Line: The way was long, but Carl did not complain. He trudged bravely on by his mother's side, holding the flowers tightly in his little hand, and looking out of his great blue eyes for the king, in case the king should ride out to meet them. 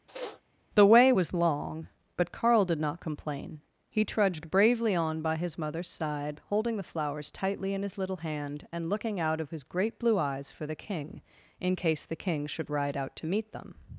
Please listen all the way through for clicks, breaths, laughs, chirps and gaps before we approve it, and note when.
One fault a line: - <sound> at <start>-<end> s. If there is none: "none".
- sniff at 0.1-0.4 s